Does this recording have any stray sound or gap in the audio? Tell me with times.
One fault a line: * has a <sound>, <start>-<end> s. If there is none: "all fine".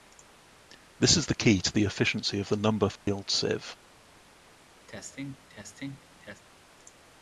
* has a dropout, 3.0-3.1 s
* has a cough, 4.9-6.4 s